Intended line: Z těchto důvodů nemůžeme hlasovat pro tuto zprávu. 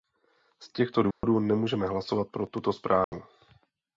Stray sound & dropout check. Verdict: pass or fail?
fail